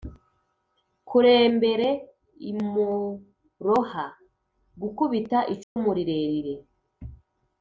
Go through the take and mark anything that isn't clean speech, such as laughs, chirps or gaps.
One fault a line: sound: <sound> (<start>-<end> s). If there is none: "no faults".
sound: dropout (5.6-5.8 s)